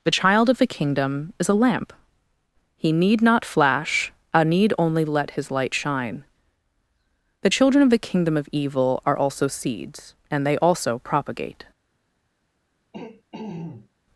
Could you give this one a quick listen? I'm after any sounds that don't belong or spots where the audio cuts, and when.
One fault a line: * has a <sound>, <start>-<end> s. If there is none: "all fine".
* has a throat clearing, 12.9-13.9 s